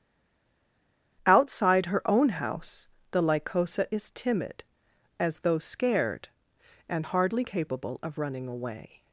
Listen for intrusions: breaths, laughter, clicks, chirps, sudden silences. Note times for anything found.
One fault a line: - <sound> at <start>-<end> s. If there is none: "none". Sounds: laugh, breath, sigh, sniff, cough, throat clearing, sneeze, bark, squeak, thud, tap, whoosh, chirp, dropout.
none